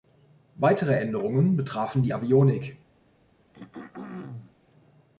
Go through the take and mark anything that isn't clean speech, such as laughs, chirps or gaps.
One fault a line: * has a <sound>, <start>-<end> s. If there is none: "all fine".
* has a throat clearing, 3.5-4.5 s